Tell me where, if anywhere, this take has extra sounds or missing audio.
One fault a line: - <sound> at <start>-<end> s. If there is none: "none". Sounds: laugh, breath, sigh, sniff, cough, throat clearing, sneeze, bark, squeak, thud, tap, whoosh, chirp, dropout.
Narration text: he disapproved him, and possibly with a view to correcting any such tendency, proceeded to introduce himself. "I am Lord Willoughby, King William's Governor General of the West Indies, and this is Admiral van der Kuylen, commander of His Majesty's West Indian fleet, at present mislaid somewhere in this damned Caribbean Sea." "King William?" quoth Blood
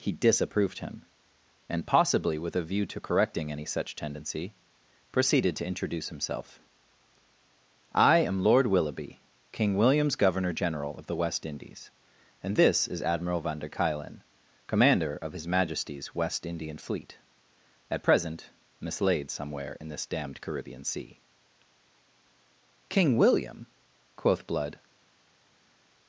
none